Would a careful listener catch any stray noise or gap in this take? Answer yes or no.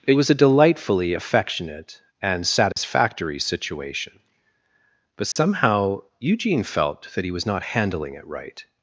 yes